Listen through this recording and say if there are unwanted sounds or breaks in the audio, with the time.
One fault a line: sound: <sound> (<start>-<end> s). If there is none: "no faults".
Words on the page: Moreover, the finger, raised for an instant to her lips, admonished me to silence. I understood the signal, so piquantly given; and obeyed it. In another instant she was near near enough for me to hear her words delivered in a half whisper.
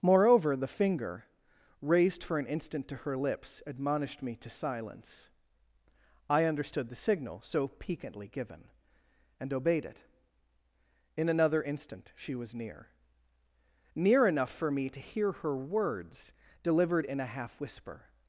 no faults